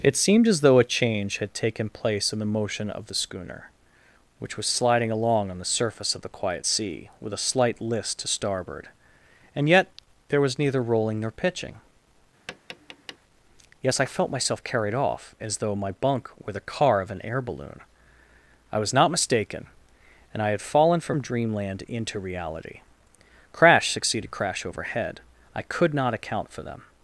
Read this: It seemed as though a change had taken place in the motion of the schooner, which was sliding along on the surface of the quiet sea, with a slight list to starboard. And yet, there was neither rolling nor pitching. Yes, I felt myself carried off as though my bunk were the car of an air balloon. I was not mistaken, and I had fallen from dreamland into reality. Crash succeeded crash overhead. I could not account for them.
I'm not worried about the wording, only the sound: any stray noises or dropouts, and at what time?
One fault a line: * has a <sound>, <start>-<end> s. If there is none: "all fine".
* has a tap, 12.5-13.2 s